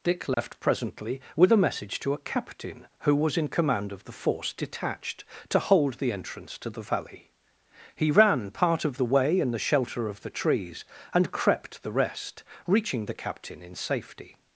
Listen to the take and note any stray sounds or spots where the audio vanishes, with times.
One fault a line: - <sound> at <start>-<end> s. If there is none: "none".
- dropout at 0.3-0.4 s